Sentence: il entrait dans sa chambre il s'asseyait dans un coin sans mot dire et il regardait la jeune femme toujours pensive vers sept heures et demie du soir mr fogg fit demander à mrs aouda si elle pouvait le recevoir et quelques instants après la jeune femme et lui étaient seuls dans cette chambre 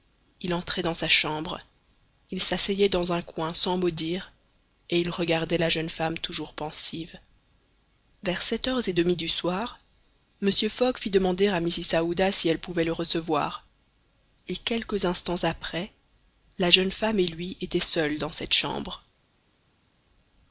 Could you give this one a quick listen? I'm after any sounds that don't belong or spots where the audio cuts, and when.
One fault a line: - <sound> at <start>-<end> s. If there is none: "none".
none